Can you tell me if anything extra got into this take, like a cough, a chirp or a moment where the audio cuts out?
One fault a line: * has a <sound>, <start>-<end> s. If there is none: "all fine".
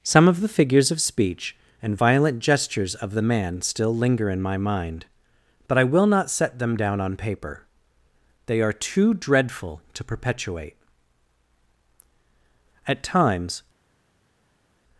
all fine